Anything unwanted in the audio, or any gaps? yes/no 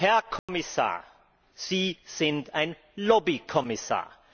yes